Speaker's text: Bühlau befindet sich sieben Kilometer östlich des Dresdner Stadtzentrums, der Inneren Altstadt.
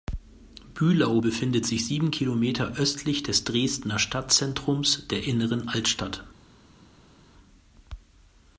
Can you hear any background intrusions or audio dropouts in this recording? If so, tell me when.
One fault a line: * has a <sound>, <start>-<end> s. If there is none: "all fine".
all fine